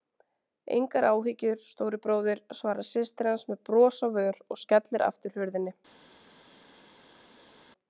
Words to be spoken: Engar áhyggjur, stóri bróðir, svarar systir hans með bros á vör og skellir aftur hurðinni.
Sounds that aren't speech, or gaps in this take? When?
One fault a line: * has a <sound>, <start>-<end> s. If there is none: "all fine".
all fine